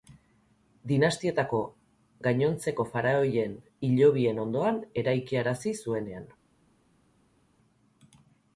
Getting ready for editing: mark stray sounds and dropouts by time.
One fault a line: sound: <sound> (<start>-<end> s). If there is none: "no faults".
no faults